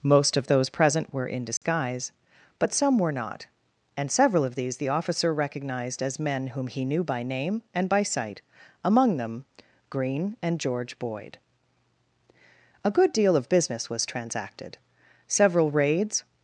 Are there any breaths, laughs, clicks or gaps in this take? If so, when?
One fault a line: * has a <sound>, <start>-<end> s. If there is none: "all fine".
* has a dropout, 1.6-1.6 s